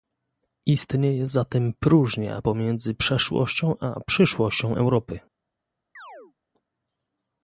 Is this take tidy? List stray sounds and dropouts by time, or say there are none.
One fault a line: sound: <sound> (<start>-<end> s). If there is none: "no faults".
sound: chirp (6.0-6.3 s)